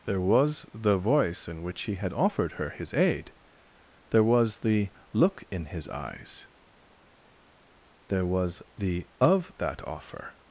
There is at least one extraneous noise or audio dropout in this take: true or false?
false